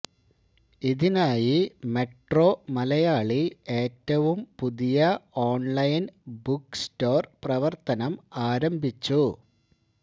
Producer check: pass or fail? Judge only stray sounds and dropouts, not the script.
pass